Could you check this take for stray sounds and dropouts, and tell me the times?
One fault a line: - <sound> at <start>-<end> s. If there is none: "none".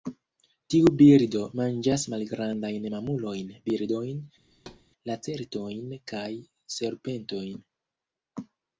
- thud at 4.5-4.8 s